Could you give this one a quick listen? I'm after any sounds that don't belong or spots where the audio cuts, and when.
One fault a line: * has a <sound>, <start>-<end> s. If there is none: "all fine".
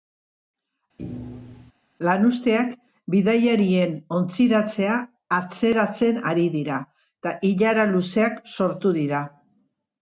* has a thud, 1.0-1.7 s